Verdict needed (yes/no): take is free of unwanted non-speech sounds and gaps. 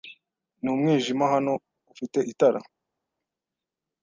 yes